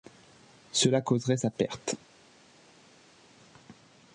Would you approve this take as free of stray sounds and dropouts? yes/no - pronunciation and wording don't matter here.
yes